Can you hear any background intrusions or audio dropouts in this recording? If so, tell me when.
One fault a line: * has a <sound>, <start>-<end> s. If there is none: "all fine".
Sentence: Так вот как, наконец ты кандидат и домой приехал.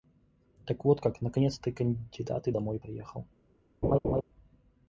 * has a laugh, 3.8-4.2 s